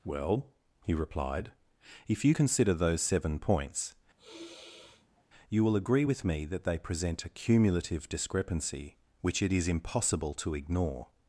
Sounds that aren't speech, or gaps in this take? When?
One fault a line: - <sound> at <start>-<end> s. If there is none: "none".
- sigh at 4.2-5.2 s